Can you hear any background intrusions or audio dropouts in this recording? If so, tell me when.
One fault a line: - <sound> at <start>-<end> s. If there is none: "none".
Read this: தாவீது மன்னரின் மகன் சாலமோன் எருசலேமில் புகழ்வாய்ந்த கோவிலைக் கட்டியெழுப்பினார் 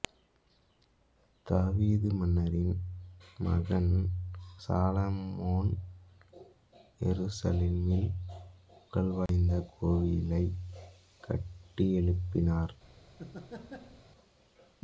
- dropout at 9.3-9.3 s
- laugh at 13.2-14.0 s